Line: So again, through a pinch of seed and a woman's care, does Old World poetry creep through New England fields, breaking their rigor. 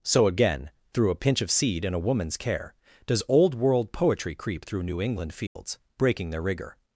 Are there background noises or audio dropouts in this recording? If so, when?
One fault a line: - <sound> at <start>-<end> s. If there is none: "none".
- dropout at 5.5-5.6 s